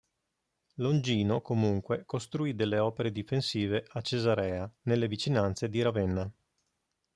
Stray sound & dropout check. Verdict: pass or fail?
pass